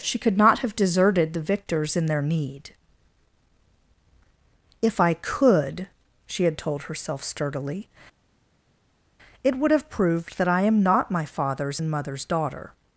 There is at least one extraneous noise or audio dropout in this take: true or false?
false